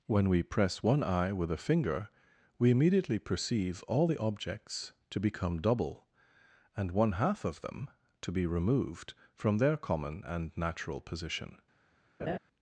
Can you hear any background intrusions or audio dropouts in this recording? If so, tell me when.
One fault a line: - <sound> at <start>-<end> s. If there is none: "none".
- laugh at 12.2-12.4 s